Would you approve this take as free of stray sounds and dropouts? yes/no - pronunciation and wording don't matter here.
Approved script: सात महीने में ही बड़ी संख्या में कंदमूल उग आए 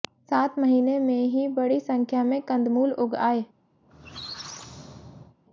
no